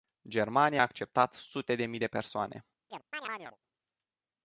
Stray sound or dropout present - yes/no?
yes